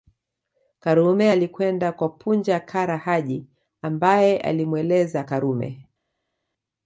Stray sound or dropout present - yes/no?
no